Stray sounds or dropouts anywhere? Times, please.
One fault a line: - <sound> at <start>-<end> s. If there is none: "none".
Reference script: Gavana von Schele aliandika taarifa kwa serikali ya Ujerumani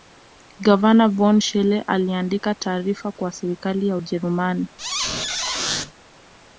- squeak at 4.8-5.9 s